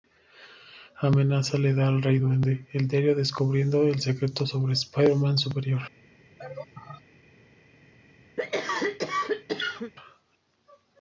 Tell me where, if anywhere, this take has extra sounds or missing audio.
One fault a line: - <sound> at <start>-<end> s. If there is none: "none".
- laugh at 6.4-7.0 s
- cough at 8.4-9.9 s